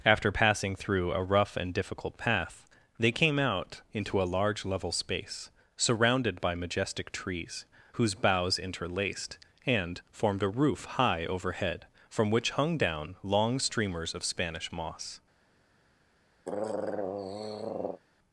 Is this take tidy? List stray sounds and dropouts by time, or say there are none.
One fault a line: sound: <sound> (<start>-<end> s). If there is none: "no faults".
sound: throat clearing (16.4-18.0 s)